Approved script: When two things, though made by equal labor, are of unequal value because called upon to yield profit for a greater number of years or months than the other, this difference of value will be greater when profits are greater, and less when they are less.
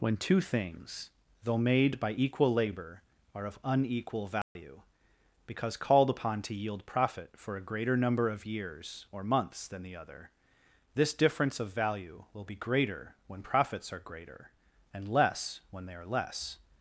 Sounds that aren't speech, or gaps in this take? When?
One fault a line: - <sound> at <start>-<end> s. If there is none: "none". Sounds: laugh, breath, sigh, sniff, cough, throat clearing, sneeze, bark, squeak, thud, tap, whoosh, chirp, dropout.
- dropout at 4.4-4.6 s